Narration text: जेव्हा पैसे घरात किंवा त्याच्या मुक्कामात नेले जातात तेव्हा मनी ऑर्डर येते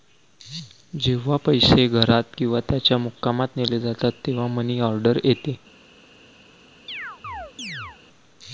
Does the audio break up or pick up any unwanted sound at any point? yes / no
yes